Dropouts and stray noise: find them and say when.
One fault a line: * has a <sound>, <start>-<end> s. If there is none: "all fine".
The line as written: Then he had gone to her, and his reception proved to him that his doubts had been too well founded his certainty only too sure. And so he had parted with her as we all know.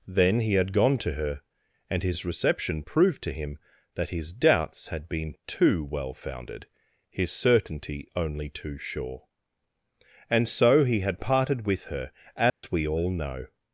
* has a dropout, 12.5-12.6 s